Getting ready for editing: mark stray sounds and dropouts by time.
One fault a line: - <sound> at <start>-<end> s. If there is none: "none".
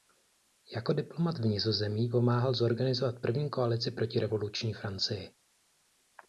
none